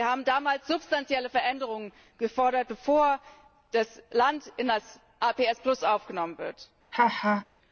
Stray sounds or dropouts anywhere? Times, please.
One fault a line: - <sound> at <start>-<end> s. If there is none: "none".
- laugh at 6.9-7.5 s